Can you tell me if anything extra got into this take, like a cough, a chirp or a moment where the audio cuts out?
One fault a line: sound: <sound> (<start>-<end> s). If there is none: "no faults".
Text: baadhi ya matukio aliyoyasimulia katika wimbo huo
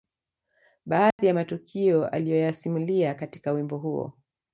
sound: dropout (1.1-1.2 s)